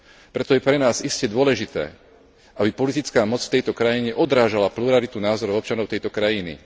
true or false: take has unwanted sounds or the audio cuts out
false